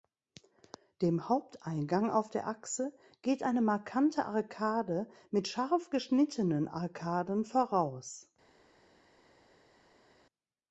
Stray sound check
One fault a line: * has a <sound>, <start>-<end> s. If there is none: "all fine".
all fine